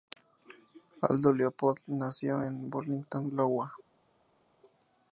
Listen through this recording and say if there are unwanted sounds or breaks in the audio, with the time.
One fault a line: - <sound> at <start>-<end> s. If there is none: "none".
none